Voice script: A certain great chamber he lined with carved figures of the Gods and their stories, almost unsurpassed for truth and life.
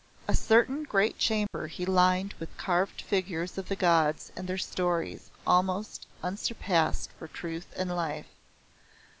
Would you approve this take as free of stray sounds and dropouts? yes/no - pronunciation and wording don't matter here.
no